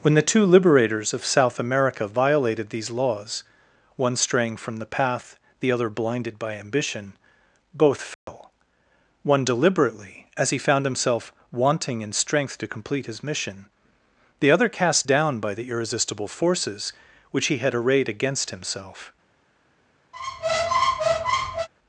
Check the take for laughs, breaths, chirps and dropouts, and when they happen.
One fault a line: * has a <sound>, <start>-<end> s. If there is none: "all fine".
* has a dropout, 8.1-8.3 s
* has a squeak, 20.1-21.7 s